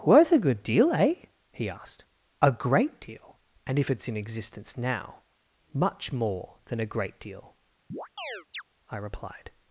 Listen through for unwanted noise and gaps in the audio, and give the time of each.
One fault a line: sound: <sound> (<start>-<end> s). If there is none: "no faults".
sound: chirp (7.9-8.6 s)